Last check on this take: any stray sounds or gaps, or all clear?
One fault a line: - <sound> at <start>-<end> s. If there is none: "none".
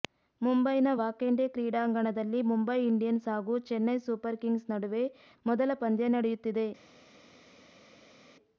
none